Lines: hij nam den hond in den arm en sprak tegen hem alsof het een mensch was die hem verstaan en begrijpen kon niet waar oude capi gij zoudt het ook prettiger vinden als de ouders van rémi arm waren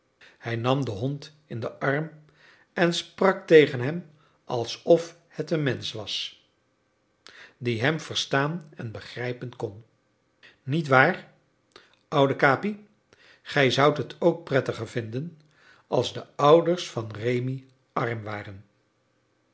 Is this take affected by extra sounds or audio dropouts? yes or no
no